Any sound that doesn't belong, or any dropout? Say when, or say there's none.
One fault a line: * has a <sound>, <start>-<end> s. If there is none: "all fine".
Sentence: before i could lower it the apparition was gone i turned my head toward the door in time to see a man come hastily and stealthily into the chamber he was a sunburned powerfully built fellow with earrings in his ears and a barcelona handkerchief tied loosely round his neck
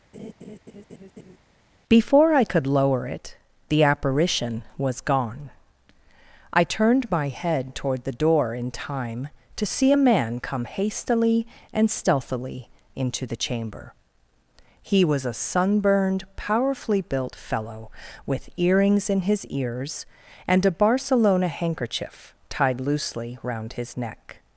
* has a laugh, 0.1-1.4 s